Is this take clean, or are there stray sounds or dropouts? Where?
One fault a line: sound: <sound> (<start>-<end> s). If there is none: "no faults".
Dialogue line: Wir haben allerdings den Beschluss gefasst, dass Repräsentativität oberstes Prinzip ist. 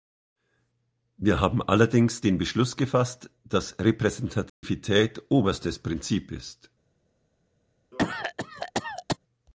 sound: dropout (4.5-4.6 s)
sound: cough (7.9-9.2 s)